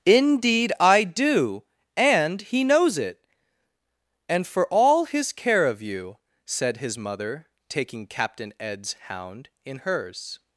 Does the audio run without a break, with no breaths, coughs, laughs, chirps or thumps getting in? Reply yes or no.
yes